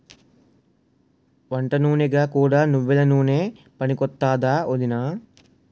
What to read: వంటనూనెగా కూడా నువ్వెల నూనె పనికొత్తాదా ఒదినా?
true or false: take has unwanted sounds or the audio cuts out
false